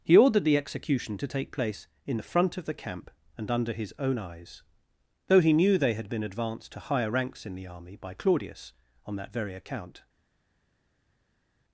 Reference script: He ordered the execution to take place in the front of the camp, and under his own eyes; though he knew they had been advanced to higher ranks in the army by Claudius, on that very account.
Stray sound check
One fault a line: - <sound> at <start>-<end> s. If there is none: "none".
none